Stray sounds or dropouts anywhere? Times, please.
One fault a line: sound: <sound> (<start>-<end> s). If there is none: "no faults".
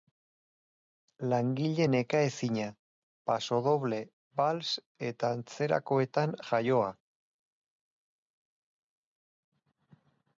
no faults